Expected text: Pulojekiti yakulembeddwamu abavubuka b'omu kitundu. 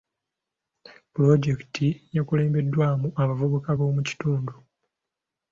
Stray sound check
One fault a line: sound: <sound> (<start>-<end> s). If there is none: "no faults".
no faults